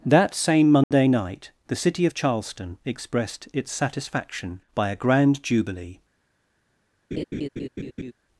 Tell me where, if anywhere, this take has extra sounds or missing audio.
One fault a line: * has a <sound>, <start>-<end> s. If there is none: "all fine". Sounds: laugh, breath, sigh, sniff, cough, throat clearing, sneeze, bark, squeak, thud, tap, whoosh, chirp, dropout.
* has a dropout, 0.8-0.9 s
* has a laugh, 7.1-8.1 s